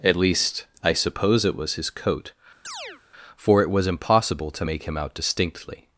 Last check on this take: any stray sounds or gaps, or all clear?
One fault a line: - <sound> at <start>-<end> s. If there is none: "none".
- chirp at 2.6-3.0 s